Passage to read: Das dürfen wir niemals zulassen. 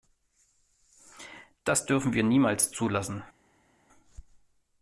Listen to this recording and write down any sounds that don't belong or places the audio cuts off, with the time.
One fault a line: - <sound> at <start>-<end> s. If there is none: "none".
none